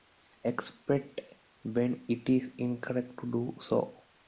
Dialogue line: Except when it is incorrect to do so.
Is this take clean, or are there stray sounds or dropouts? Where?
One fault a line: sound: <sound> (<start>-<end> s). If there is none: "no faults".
no faults